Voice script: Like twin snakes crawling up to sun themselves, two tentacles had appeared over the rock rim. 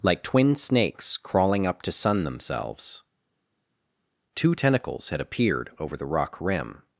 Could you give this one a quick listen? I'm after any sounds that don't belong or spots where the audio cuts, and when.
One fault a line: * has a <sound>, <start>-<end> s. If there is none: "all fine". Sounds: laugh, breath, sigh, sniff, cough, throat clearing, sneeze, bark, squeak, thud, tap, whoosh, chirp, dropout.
all fine